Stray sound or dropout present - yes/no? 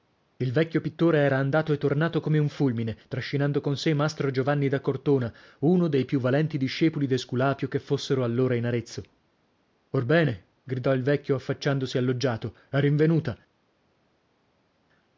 no